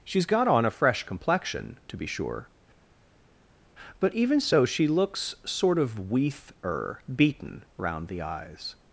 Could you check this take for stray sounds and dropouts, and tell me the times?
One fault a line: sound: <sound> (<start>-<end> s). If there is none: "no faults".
no faults